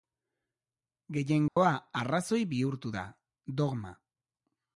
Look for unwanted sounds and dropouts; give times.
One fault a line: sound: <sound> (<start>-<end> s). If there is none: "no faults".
sound: dropout (1.5-1.6 s)